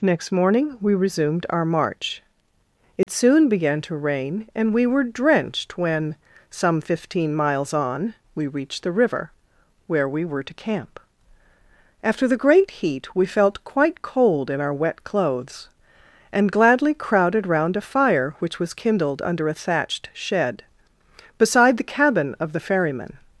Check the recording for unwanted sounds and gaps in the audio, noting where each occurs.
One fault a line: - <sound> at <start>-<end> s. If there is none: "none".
- dropout at 3.0-3.1 s